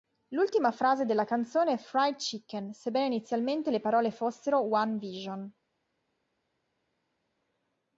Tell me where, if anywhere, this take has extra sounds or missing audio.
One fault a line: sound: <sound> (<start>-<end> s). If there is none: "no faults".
no faults